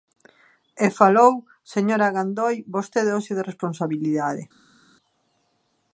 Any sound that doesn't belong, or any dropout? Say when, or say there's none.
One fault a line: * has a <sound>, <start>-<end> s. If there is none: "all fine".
all fine